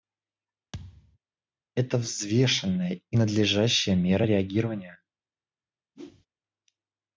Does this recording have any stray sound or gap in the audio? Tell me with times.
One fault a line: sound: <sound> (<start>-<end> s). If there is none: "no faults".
sound: thud (0.7-1.2 s)
sound: whoosh (5.9-6.3 s)